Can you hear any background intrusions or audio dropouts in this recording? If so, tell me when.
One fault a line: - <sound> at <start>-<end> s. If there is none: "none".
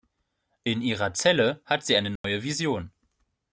- dropout at 2.2-2.2 s